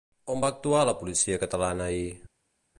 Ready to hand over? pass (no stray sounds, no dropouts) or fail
pass